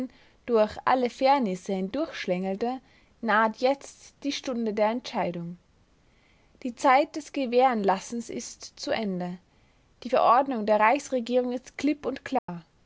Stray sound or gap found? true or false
true